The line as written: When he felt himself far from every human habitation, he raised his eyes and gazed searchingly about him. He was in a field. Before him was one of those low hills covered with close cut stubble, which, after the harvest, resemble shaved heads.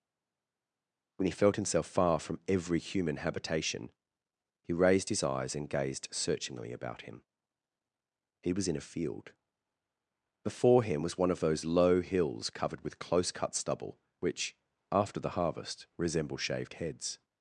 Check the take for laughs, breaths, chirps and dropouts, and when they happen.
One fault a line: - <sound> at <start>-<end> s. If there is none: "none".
none